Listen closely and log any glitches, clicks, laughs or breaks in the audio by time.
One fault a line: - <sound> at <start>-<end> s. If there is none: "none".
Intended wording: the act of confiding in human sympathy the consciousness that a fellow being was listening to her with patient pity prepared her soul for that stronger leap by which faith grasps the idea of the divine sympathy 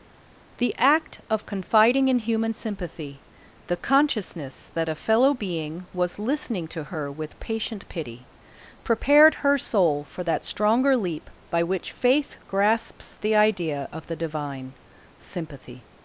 none